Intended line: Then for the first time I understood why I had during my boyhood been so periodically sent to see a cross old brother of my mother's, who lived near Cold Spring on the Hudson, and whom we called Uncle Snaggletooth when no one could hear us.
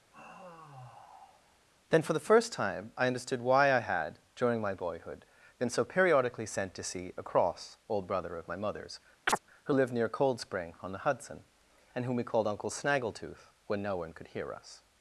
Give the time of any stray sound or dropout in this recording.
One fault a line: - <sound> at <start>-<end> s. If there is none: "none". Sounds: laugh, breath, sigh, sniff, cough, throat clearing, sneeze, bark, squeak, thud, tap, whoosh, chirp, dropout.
- sigh at 0.1-1.7 s
- chirp at 9.3-9.4 s